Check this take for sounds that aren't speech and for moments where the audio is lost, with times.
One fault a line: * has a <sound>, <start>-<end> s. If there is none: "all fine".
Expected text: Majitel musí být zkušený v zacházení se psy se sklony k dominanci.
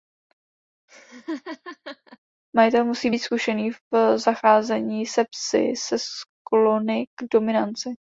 * has a laugh, 0.9-2.2 s